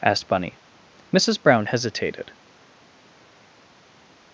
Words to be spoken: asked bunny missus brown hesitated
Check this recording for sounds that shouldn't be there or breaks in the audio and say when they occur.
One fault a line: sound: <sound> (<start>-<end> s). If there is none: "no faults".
no faults